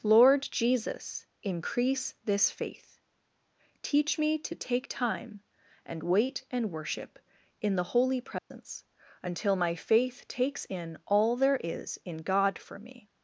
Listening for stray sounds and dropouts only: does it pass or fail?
fail